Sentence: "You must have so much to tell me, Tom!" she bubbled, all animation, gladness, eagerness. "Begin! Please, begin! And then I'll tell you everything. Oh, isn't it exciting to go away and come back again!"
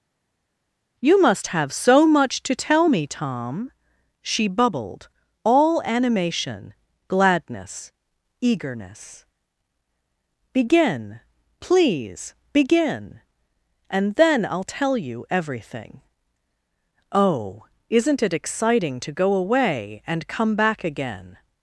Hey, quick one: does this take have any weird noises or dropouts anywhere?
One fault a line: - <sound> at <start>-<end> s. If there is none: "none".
none